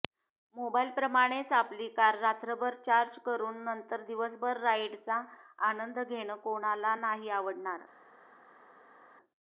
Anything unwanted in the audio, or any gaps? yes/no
no